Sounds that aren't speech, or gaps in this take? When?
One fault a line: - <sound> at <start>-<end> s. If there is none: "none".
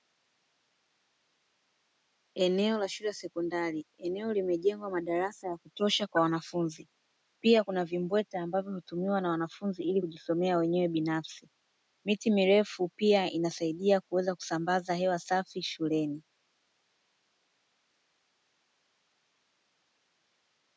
none